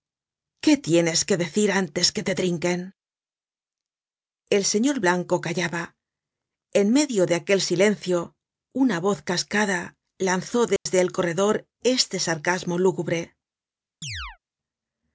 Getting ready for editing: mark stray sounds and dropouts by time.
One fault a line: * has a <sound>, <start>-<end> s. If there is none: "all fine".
* has a dropout, 10.8-10.9 s
* has a chirp, 14.0-14.4 s